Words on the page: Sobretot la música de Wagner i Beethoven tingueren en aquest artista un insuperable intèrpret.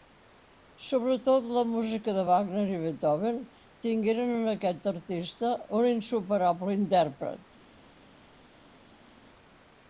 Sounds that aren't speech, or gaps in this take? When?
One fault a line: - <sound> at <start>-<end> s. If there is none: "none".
none